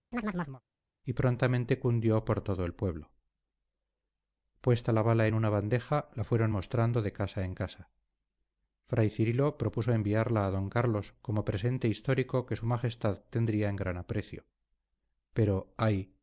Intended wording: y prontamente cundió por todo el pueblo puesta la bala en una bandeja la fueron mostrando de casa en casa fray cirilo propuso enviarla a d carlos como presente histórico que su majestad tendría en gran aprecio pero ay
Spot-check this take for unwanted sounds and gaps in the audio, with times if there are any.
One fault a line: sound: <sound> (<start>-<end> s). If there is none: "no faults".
sound: chirp (0.1-0.6 s)